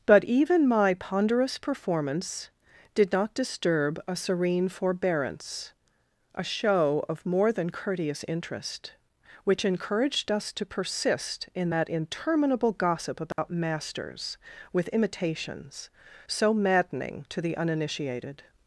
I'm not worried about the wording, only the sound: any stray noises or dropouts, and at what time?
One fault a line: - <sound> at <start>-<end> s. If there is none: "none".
- dropout at 13.3-13.4 s